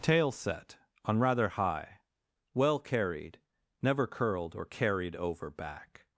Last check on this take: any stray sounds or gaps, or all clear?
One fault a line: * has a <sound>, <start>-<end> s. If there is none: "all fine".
all fine